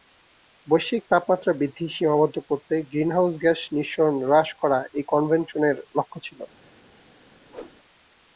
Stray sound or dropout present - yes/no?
yes